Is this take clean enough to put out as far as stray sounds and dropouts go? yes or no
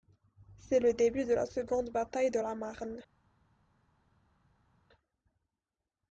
yes